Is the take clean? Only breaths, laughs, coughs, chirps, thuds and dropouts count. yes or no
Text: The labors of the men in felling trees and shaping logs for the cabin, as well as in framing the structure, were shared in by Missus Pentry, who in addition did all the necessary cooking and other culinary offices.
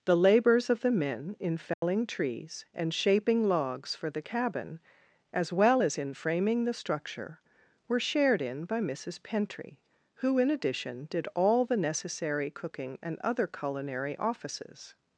no